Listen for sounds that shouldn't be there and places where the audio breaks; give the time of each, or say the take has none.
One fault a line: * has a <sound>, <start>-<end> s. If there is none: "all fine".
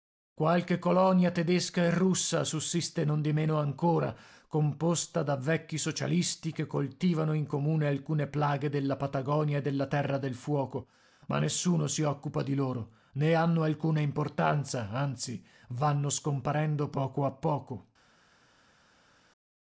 all fine